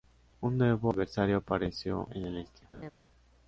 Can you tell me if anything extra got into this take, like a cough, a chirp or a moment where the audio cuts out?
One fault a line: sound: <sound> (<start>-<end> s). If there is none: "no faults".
sound: laugh (2.7-2.9 s)